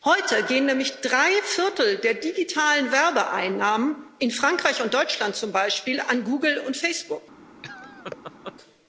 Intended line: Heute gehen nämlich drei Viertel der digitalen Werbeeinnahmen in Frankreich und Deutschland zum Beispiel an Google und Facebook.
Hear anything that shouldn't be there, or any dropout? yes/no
yes